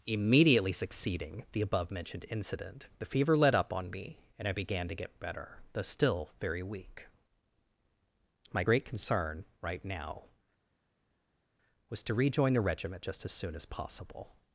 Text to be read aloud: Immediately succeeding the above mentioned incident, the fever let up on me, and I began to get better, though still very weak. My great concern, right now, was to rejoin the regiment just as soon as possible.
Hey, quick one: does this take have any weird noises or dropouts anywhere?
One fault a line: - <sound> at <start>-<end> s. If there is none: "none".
none